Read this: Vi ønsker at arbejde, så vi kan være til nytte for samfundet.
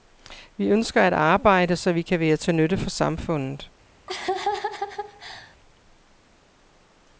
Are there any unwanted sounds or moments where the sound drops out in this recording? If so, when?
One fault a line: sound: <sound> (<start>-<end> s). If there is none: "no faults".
sound: laugh (4.1-5.6 s)